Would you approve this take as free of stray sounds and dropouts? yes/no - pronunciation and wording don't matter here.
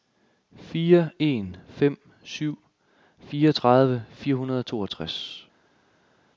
yes